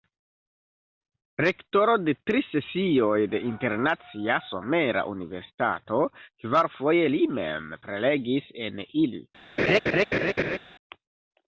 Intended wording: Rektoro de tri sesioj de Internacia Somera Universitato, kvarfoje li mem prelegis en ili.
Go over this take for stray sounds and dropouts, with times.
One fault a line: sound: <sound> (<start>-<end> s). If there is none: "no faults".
sound: laugh (9.6-10.6 s)